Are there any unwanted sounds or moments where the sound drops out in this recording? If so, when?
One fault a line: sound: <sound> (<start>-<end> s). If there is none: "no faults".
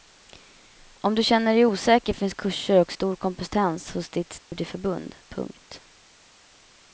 sound: dropout (4.4-4.5 s)